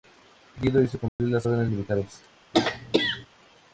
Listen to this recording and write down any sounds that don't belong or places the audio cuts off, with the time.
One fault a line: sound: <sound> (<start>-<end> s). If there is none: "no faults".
sound: dropout (1.1-1.2 s)
sound: throat clearing (2.5-3.3 s)